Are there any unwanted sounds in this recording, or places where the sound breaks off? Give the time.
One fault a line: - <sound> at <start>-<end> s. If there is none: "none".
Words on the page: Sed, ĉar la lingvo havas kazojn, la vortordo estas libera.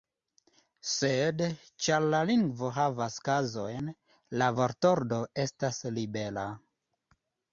none